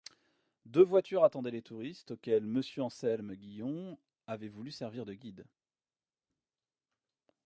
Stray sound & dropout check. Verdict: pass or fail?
pass